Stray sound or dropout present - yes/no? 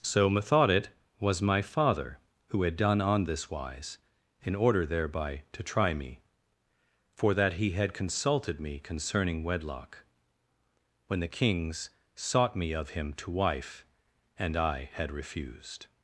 no